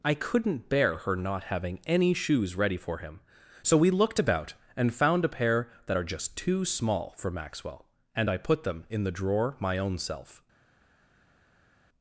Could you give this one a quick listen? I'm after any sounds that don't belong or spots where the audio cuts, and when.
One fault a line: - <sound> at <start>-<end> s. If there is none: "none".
none